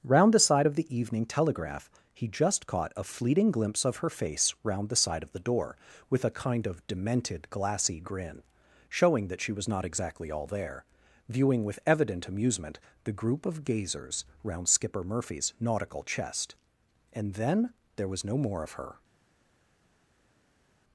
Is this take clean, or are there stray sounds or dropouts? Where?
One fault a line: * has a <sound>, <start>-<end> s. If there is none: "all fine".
all fine